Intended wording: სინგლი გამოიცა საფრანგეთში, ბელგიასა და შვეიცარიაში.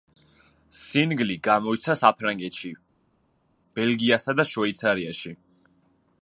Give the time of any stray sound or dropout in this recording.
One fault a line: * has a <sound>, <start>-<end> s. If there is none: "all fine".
all fine